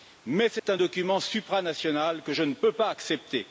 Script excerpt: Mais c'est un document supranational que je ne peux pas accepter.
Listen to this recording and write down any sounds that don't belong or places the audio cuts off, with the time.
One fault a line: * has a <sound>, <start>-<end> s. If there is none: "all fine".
* has a dropout, 0.6-0.7 s